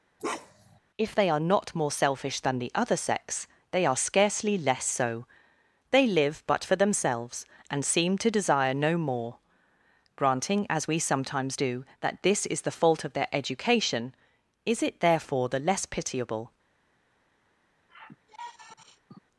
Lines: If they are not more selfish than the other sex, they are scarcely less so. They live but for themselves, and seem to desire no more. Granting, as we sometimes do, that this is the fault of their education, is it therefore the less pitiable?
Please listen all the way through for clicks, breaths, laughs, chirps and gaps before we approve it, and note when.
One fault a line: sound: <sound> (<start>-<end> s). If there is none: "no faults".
sound: bark (0.2-0.8 s)
sound: sigh (17.9-19.2 s)